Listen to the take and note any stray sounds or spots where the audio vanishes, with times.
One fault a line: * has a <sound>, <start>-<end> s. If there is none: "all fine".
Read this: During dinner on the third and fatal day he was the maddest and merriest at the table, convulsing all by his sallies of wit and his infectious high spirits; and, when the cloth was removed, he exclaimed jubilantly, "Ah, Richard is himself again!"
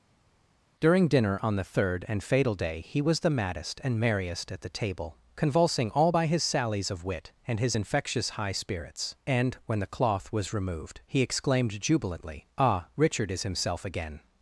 all fine